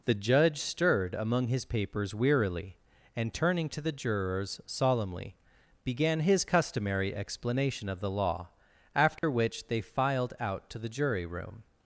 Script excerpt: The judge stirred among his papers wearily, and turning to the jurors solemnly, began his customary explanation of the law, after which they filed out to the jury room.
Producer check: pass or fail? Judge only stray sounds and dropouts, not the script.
fail